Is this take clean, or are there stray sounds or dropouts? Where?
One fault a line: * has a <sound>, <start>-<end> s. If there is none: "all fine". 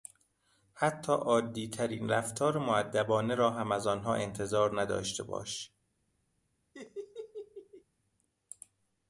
* has a laugh, 6.7-7.8 s